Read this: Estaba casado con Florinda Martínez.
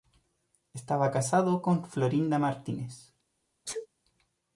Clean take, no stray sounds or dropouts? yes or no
no